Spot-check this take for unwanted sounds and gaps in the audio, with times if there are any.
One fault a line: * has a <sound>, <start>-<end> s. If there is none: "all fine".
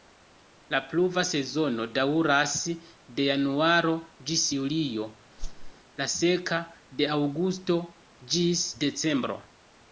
* has a whoosh, 5.4-5.7 s